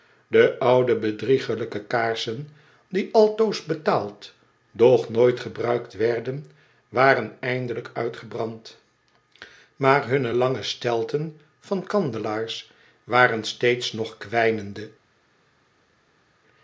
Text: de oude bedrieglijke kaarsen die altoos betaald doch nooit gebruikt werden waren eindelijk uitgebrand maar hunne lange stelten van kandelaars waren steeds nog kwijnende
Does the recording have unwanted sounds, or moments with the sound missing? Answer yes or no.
no